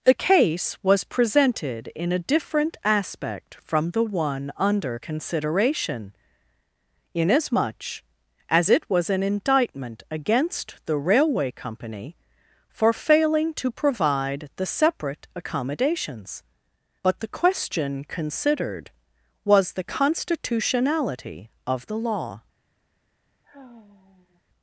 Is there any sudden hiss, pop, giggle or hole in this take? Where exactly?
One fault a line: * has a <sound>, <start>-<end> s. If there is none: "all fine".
* has a sigh, 23.4-24.4 s